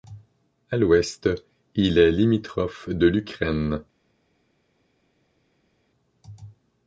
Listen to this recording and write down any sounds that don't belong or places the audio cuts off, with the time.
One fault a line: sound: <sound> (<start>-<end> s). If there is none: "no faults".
no faults